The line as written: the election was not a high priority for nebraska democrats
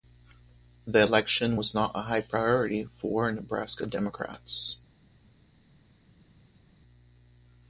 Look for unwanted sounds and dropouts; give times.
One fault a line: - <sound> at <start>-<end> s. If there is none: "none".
none